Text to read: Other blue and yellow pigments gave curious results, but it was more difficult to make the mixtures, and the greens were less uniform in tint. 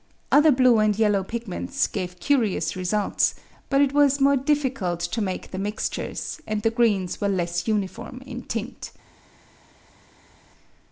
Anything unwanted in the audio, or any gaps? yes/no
no